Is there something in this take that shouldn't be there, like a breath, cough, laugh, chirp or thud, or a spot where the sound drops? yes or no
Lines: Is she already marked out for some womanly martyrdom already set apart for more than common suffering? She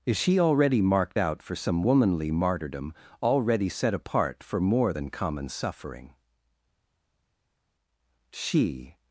no